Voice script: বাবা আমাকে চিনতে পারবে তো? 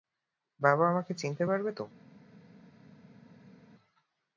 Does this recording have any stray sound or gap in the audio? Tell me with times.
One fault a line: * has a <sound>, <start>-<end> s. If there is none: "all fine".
all fine